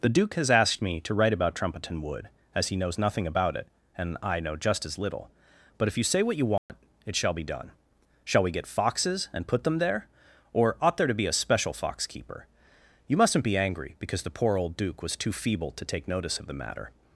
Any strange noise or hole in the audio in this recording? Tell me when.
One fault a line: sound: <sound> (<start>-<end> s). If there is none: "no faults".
sound: dropout (6.6-6.7 s)